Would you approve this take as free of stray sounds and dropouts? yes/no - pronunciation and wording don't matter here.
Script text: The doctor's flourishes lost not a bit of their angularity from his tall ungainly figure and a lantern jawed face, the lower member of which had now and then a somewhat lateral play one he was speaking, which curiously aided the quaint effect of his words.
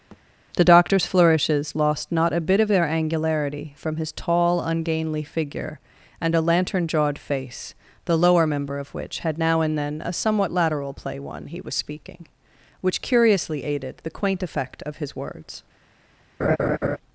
no